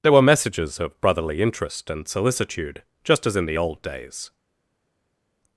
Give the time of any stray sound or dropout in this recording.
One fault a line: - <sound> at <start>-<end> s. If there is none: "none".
none